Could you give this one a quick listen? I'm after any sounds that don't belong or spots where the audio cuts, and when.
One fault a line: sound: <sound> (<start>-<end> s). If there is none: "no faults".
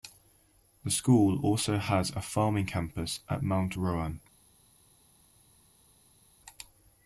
no faults